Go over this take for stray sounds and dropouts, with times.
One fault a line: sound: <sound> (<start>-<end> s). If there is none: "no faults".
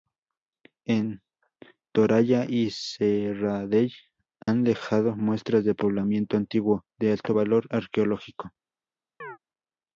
sound: dropout (4.4-4.5 s)
sound: chirp (9.2-9.4 s)